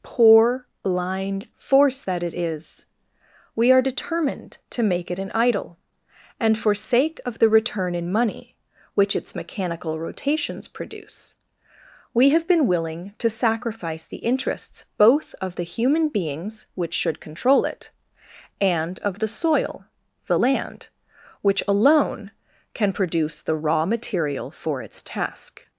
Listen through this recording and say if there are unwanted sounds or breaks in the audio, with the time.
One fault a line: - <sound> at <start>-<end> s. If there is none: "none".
none